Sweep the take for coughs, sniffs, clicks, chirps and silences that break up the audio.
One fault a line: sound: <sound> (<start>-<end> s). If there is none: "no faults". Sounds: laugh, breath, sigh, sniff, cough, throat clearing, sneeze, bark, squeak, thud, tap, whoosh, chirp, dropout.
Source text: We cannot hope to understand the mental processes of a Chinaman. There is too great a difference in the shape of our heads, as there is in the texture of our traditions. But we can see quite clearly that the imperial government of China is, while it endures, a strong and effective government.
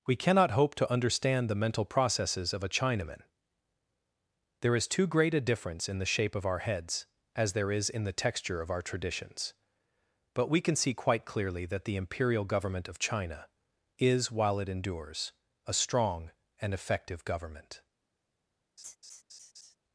sound: laugh (18.8-19.8 s)